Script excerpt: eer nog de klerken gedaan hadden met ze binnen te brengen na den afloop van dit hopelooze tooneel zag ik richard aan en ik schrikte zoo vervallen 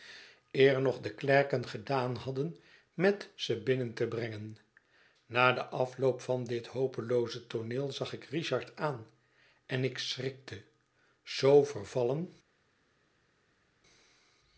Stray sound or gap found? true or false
false